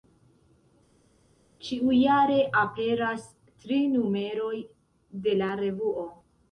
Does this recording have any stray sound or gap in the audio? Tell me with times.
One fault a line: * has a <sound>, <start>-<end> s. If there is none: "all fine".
all fine